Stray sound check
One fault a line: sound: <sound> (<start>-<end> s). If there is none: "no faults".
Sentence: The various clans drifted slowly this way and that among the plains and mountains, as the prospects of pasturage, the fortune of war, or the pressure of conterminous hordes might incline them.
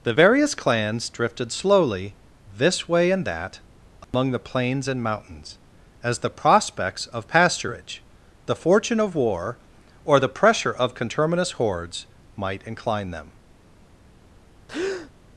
sound: dropout (4.0-4.1 s)
sound: breath (14.7-15.1 s)